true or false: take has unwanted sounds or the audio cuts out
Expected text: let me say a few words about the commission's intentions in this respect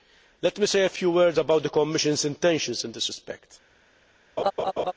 true